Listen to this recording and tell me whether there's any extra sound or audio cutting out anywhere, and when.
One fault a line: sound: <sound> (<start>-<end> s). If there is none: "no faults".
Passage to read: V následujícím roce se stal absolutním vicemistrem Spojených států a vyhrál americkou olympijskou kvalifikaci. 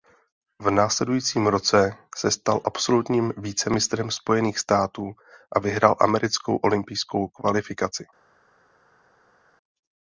no faults